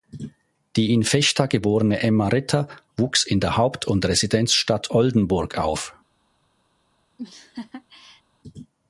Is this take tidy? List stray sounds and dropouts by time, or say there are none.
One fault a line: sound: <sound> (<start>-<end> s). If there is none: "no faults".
sound: laugh (7.2-8.2 s)